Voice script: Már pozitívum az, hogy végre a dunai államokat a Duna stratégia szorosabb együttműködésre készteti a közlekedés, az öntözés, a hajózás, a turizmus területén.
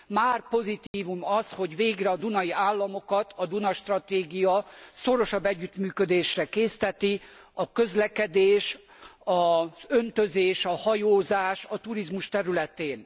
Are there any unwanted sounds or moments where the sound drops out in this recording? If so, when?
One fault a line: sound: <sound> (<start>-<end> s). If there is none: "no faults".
sound: dropout (0.9-0.9 s)